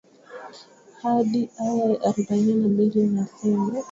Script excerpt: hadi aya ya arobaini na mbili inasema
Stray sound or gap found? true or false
false